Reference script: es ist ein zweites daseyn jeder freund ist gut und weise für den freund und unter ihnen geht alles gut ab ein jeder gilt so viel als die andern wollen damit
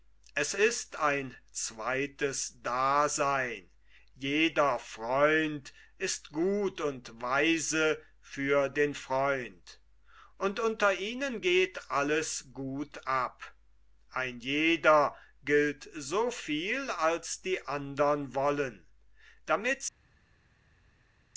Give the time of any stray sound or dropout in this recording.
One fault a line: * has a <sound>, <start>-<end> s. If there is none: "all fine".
all fine